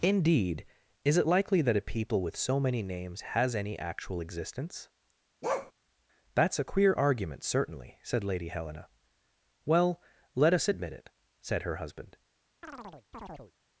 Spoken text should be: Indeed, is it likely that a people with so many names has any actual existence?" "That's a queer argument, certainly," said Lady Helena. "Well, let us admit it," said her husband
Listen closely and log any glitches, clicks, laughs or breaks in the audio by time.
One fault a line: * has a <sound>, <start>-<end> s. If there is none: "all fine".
* has a bark, 5.4-5.7 s
* has a chirp, 12.6-13.5 s